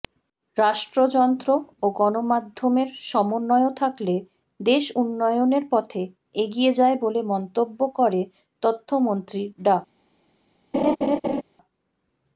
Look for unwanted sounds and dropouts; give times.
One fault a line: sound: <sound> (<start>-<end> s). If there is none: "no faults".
sound: laugh (10.7-11.4 s)